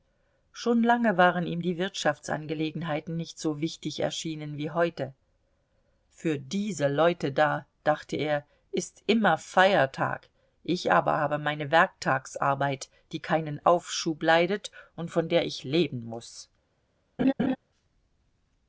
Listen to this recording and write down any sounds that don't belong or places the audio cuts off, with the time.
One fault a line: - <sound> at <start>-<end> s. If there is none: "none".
- laugh at 17.2-17.6 s